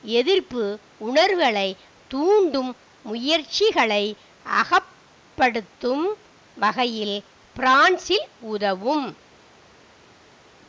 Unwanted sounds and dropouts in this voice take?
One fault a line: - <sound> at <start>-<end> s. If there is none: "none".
none